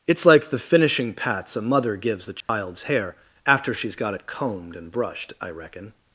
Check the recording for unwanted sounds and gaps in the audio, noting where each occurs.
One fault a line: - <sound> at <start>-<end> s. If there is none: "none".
- dropout at 2.4-2.5 s